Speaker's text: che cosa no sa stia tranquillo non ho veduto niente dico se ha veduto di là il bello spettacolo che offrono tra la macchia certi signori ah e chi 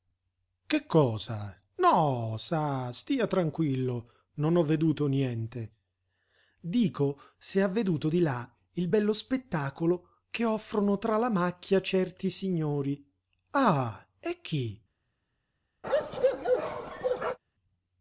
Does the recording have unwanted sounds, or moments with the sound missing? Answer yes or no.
yes